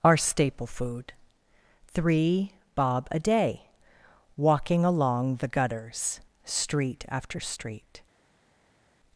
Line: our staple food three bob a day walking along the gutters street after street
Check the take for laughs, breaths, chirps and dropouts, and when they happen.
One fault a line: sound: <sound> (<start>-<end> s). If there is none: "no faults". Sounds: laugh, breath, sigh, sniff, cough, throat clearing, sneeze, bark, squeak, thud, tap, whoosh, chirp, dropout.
no faults